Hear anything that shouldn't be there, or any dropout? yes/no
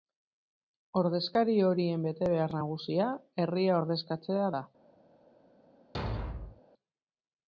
yes